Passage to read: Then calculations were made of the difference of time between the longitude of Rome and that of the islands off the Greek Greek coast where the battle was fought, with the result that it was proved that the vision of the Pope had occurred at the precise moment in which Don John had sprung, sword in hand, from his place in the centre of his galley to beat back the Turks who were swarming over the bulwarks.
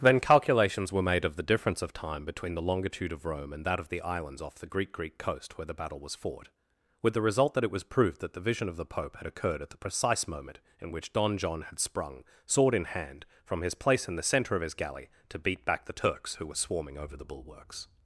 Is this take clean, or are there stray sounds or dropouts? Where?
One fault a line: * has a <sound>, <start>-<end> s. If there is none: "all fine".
all fine